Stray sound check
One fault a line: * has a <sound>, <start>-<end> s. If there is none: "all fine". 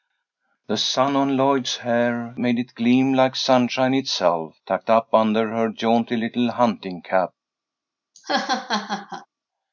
* has a laugh, 8.1-9.3 s